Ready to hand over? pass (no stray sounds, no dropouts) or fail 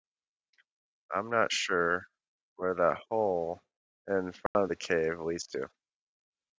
fail